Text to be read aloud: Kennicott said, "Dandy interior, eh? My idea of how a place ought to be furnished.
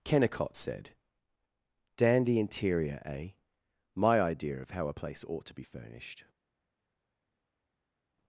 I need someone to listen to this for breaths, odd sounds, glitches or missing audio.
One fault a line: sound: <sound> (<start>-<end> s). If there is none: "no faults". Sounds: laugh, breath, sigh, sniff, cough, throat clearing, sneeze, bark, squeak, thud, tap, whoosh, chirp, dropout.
no faults